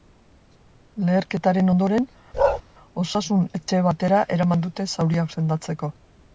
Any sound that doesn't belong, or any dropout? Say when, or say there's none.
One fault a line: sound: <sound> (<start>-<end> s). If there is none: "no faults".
sound: bark (2.3-2.6 s)